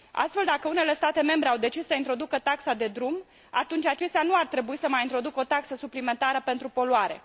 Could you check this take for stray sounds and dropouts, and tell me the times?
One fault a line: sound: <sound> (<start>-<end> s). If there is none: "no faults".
no faults